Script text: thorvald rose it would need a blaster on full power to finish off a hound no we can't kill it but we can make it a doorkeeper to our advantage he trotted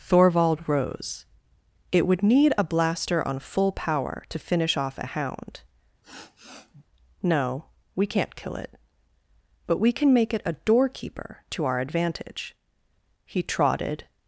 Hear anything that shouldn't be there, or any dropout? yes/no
yes